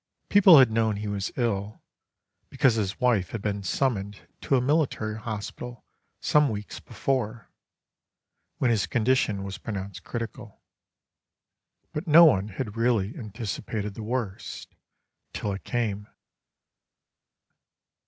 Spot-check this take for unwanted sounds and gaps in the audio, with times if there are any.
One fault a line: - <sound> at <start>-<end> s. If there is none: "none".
none